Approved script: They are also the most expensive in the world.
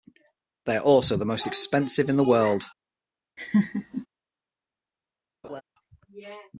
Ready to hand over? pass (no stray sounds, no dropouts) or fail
fail